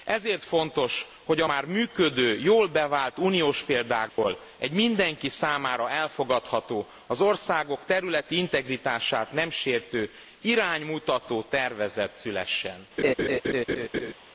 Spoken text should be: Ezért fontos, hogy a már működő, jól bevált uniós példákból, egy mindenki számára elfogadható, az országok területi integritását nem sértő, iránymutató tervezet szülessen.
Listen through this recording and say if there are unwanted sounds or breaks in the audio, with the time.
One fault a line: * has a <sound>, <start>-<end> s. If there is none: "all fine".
* has a dropout, 4.1-4.2 s
* has a laugh, 13.0-14.1 s